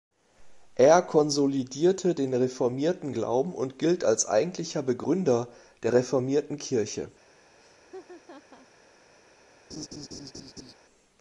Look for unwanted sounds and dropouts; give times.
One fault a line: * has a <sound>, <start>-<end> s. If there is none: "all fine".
* has a laugh, 7.6-8.7 s
* has a laugh, 9.7-10.7 s